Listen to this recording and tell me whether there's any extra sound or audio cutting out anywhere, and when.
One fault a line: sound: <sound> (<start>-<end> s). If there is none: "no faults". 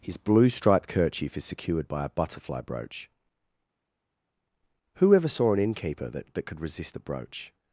no faults